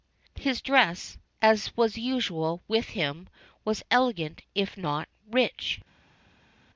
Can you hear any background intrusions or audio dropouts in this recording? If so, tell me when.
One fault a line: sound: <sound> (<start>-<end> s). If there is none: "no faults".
no faults